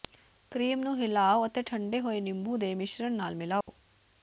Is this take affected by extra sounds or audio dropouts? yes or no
yes